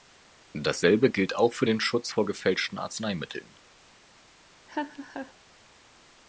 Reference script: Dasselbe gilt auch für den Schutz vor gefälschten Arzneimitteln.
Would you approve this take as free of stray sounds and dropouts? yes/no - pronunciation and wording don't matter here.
no